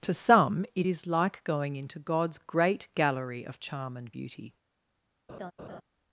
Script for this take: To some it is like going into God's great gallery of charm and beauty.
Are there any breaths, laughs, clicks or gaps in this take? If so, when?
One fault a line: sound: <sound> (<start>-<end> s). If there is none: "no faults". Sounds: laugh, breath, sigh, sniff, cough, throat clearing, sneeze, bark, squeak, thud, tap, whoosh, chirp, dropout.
sound: laugh (5.3-5.8 s)